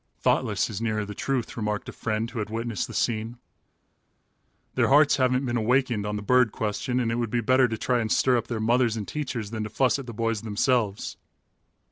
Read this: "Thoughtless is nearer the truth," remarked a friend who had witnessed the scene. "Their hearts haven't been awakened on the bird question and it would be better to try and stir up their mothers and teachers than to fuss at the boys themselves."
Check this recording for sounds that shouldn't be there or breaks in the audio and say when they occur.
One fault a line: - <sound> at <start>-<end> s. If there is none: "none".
none